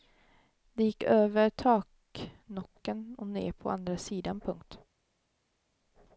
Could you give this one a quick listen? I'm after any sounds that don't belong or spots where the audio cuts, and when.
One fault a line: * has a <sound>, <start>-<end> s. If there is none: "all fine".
all fine